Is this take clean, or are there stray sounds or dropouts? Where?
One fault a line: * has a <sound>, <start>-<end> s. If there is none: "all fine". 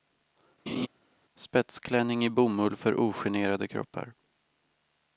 * has a laugh, 0.7-0.9 s